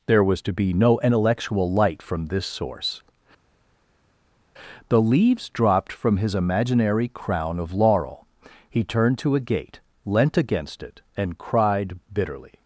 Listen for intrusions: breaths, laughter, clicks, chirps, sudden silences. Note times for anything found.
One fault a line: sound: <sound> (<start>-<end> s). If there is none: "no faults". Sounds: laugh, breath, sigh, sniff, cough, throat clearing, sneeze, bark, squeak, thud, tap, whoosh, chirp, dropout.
no faults